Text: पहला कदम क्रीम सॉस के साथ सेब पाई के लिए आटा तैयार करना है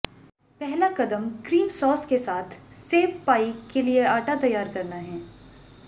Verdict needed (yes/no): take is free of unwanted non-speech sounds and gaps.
yes